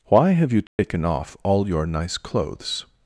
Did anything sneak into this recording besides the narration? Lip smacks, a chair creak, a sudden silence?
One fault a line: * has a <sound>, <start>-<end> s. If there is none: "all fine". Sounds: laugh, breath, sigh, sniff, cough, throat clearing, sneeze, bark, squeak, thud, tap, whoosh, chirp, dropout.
* has a dropout, 0.7-0.8 s